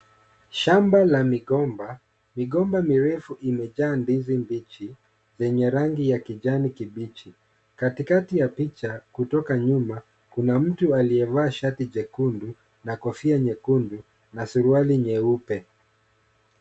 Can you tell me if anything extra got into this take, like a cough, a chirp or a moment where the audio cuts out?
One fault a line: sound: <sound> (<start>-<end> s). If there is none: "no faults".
no faults